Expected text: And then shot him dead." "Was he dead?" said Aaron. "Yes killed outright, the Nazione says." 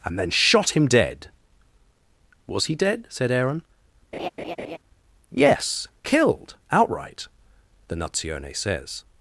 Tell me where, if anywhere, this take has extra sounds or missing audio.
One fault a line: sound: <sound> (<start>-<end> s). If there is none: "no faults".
sound: laugh (4.1-4.8 s)